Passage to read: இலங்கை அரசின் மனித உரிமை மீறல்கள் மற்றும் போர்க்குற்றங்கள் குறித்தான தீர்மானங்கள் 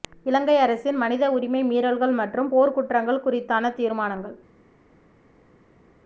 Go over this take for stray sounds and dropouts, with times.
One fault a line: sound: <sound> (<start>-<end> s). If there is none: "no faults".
no faults